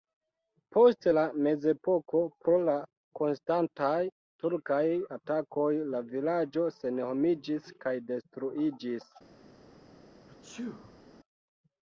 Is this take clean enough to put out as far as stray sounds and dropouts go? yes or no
no